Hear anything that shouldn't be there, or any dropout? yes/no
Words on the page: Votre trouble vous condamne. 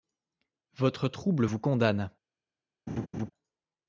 yes